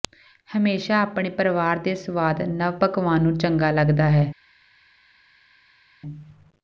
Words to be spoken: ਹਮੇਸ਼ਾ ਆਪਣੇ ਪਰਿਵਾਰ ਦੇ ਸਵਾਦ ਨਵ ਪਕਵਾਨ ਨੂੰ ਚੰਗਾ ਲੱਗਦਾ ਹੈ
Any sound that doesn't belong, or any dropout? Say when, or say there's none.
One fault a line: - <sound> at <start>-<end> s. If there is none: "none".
none